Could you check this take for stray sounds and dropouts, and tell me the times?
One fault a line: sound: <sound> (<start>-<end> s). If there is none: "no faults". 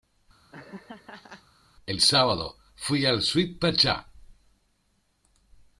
sound: laugh (0.5-1.4 s)